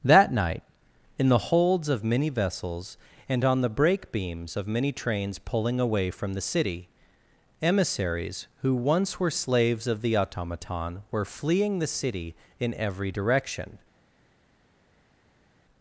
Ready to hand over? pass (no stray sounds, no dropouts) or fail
pass